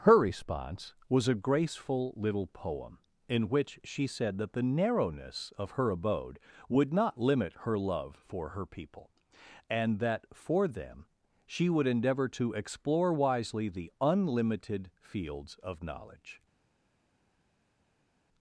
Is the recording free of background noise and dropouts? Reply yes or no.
yes